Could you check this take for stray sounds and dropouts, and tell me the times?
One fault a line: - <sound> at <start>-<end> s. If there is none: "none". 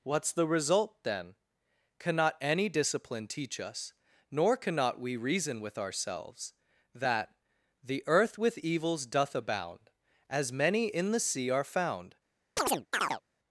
- chirp at 12.6-13.2 s